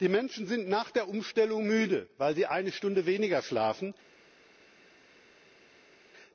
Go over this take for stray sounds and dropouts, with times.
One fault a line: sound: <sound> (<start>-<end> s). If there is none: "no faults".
no faults